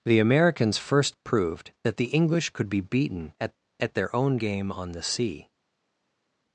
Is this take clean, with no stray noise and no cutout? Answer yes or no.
yes